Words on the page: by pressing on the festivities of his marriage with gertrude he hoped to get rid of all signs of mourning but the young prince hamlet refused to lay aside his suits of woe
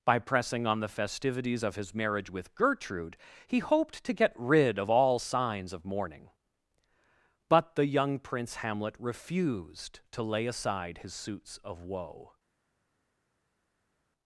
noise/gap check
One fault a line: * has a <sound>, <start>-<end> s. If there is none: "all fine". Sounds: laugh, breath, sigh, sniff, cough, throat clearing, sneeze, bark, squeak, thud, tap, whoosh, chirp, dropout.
all fine